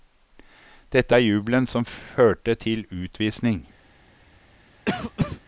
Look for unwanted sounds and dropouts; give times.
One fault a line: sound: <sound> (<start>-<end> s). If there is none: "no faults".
sound: cough (4.9-5.4 s)